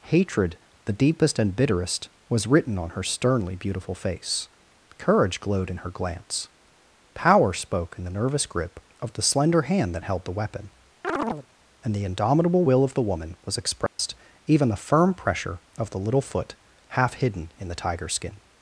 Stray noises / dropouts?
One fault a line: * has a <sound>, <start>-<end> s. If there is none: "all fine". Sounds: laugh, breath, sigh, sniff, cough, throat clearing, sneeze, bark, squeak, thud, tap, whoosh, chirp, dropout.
* has a chirp, 11.0-11.5 s
* has a dropout, 13.9-14.0 s